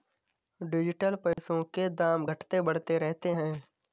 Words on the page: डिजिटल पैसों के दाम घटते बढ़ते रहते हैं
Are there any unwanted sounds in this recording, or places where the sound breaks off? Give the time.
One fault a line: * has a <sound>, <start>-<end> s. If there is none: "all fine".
* has a dropout, 1.3-1.4 s